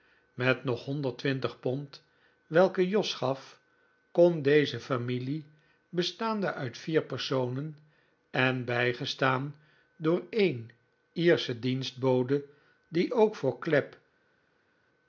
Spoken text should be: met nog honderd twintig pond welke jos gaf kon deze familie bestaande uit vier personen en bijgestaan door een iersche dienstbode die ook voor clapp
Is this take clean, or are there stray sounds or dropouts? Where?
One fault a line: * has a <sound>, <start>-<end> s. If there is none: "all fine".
all fine